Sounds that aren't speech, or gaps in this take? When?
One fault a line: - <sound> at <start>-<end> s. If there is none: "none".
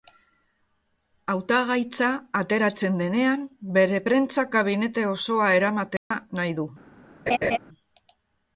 - dropout at 6.0-6.1 s
- laugh at 7.3-7.6 s